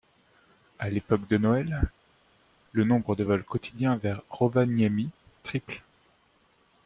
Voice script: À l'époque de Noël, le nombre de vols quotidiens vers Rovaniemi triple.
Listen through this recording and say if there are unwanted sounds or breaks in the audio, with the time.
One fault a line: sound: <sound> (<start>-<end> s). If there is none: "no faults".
no faults